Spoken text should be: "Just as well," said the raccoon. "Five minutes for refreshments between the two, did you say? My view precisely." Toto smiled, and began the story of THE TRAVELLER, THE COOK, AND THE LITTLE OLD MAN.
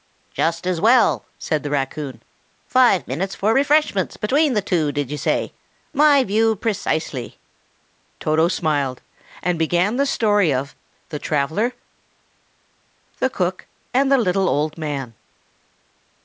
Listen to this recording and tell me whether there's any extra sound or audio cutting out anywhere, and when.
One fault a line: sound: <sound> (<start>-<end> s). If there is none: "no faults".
no faults